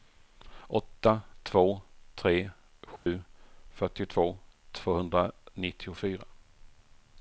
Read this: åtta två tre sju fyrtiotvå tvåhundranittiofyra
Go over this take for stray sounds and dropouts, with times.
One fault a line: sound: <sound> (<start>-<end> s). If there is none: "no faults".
sound: dropout (3.0-3.1 s)